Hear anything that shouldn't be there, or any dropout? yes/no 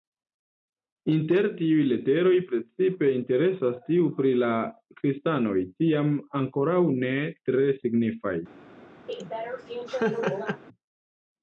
yes